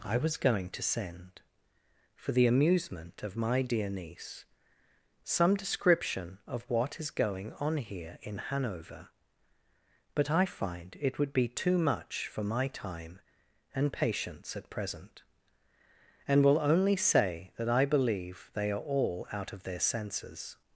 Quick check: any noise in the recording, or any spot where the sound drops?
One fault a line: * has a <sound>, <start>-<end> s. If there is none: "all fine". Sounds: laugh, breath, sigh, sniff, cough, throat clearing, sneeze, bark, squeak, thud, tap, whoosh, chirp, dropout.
all fine